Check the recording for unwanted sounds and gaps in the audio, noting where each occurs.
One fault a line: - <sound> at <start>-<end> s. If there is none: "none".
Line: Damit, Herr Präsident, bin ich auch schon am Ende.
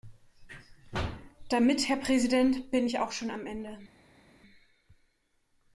none